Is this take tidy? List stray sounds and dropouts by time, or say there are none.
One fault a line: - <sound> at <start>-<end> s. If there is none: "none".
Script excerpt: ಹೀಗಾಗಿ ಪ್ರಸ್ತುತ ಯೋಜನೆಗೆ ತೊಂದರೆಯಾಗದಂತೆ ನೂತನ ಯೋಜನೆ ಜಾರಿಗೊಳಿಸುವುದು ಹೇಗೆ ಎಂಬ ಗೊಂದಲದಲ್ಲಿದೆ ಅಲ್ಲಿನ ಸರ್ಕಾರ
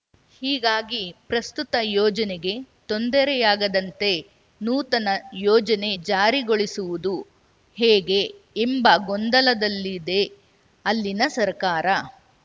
none